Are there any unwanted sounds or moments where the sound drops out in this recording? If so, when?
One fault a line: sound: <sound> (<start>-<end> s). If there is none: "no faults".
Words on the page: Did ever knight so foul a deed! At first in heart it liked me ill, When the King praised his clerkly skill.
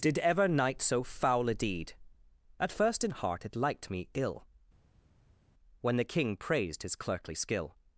no faults